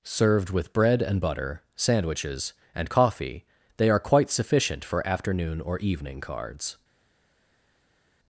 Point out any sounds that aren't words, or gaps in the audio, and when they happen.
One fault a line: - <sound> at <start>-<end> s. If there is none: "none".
none